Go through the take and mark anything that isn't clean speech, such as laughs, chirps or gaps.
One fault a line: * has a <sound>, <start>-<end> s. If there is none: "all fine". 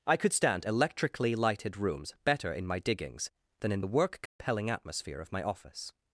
* has a dropout, 4.3-4.4 s